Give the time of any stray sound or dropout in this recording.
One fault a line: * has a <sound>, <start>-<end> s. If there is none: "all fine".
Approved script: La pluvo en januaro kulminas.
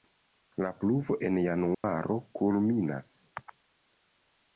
* has a dropout, 1.7-1.8 s